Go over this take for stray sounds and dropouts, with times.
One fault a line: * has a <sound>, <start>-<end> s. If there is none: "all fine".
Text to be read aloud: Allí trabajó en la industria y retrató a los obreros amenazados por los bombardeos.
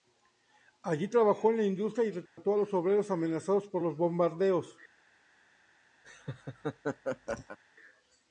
* has a dropout, 2.3-2.4 s
* has a laugh, 6.0-7.6 s